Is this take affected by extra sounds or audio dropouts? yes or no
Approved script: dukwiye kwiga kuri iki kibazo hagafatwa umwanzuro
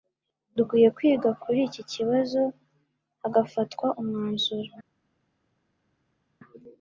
no